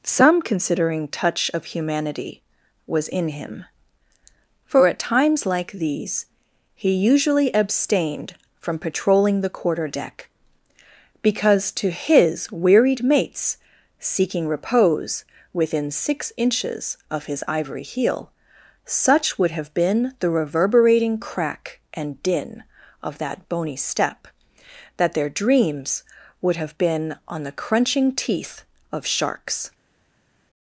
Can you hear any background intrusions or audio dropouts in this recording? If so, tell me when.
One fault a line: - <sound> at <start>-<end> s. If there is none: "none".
none